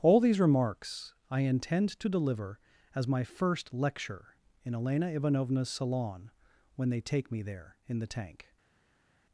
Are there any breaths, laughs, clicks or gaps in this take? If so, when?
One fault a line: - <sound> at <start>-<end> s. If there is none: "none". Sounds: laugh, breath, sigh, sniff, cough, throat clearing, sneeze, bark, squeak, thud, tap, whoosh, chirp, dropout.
none